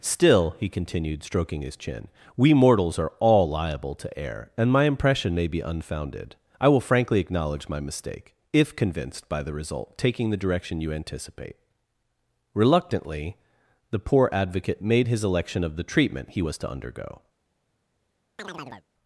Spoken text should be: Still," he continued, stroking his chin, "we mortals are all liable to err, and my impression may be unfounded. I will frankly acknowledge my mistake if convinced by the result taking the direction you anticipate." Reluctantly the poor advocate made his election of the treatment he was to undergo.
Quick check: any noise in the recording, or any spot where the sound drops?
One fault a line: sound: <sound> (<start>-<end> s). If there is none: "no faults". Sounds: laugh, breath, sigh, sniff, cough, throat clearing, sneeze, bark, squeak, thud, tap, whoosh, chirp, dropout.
sound: chirp (18.4-18.9 s)